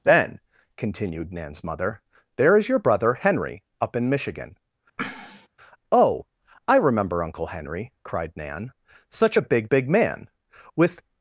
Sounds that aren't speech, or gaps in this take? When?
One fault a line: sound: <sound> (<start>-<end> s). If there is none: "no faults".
sound: sneeze (5.0-5.5 s)